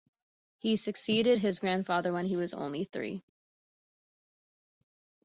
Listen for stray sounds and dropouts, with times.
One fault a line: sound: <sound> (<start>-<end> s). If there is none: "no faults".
no faults